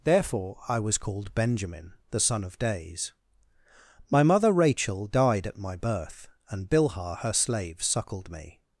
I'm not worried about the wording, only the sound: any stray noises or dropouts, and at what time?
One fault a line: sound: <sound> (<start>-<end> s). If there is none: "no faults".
no faults